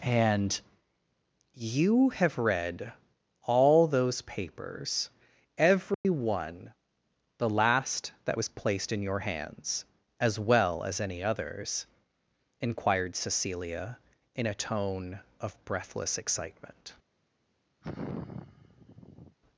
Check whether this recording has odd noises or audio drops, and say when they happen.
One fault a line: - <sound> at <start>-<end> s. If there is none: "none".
- dropout at 5.9-6.0 s
- sigh at 17.8-19.4 s